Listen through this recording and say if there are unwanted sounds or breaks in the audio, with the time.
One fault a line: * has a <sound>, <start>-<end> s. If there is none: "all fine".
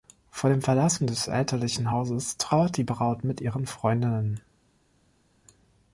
all fine